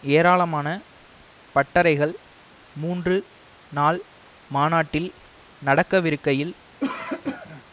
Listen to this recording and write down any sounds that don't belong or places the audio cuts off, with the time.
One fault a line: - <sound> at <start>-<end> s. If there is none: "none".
- cough at 6.8-7.6 s